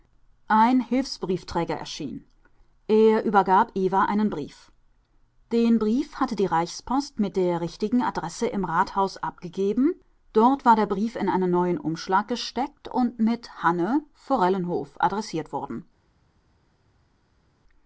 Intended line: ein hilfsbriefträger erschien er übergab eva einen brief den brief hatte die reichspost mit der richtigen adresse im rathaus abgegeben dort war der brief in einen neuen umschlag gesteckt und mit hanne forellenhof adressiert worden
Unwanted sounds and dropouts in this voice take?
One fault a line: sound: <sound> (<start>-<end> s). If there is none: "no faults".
no faults